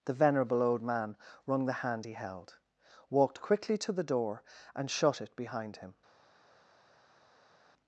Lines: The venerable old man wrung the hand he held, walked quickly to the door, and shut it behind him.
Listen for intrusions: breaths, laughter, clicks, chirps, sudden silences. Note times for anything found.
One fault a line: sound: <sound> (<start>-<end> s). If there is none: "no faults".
no faults